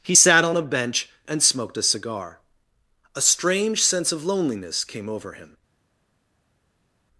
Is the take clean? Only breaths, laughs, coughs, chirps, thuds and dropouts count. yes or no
yes